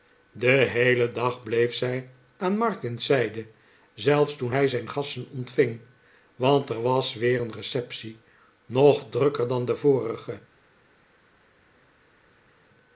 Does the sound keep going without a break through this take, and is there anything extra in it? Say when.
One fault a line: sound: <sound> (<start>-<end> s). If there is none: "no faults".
no faults